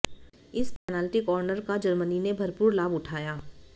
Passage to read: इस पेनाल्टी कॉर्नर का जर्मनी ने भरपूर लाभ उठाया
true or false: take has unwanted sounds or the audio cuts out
true